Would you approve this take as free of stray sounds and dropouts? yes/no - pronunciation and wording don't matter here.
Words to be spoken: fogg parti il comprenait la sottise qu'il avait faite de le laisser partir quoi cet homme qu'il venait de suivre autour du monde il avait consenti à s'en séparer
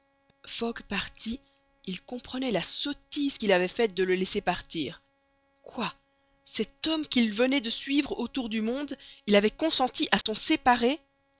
no